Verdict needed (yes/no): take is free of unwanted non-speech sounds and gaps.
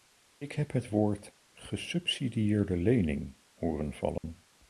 no